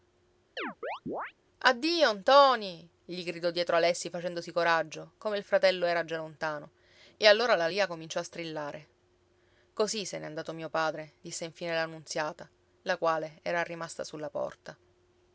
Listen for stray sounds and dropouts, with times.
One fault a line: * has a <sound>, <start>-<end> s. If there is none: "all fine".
* has a chirp, 0.6-1.3 s